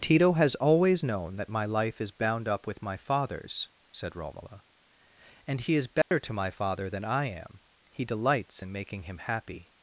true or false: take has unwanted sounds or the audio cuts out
true